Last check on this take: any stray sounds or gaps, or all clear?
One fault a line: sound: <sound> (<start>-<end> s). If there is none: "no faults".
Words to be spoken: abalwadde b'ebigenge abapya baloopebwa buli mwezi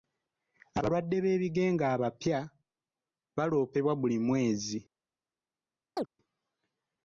sound: chirp (6.0-6.1 s)